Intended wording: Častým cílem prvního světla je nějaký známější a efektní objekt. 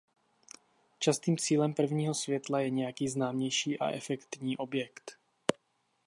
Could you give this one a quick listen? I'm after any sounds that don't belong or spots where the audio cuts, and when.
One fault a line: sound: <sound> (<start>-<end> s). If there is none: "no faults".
no faults